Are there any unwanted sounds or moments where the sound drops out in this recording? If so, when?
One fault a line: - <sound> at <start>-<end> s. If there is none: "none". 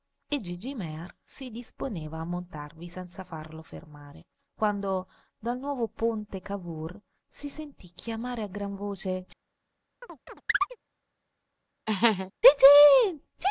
- chirp at 10.0-10.8 s
- laugh at 11.9-12.3 s